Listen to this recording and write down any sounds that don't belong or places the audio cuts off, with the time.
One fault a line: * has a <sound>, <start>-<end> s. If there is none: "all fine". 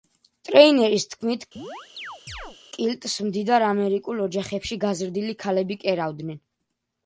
* has a chirp, 1.6-2.6 s